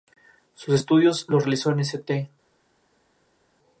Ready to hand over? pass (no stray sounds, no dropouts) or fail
pass